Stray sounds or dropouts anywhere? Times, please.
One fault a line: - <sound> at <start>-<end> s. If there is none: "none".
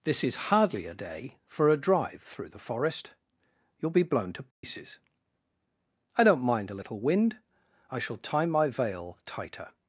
- dropout at 4.5-4.6 s